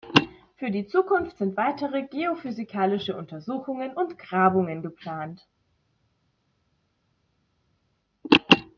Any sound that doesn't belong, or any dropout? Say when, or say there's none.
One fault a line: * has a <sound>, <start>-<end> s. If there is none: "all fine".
all fine